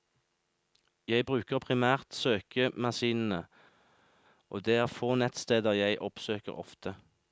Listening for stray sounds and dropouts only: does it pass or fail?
pass